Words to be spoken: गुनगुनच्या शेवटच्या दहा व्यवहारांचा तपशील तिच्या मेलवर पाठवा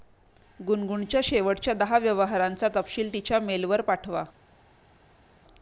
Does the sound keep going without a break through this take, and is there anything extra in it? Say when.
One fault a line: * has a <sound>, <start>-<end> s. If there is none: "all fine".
all fine